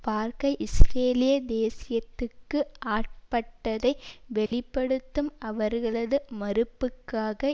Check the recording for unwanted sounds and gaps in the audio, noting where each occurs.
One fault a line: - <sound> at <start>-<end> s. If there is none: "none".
- dropout at 4.5-4.5 s